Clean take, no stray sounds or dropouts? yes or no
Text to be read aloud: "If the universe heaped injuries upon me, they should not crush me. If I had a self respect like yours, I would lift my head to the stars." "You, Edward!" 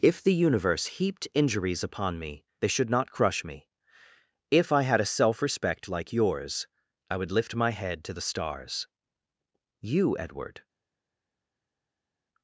yes